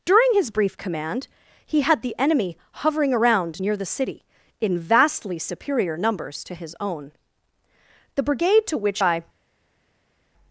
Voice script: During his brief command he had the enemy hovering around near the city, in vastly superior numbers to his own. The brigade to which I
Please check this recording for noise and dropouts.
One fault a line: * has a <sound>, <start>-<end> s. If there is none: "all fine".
all fine